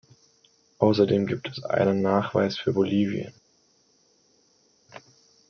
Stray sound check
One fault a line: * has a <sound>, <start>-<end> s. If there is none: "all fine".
all fine